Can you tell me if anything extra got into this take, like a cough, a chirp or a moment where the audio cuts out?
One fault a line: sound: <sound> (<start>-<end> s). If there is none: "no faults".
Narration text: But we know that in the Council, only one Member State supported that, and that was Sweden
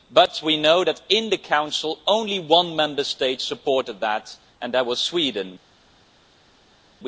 no faults